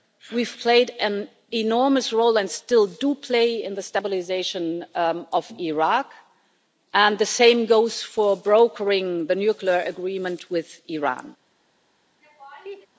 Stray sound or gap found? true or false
true